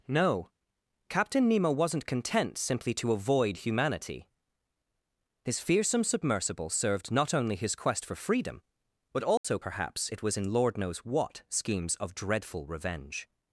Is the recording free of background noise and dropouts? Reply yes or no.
no